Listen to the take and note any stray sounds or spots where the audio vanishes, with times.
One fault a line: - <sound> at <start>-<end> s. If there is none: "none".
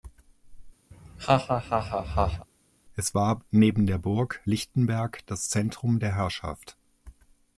- laugh at 0.9-2.5 s